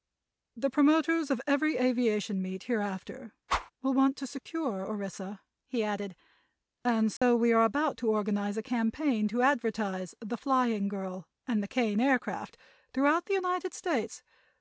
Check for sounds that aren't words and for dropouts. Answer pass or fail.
fail